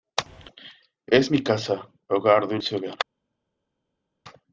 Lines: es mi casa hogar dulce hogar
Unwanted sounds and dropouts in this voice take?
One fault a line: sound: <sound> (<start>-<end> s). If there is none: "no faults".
no faults